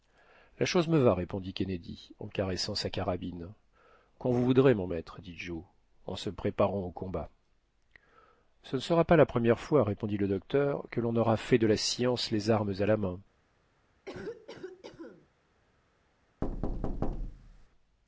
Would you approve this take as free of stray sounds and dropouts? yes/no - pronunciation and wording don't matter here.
no